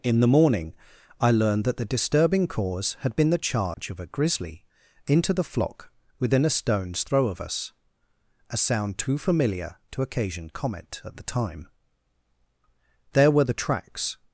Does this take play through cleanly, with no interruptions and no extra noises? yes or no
no